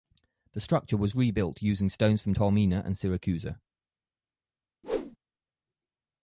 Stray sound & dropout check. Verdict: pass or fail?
fail